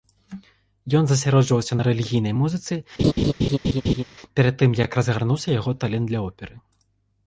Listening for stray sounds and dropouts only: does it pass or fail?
fail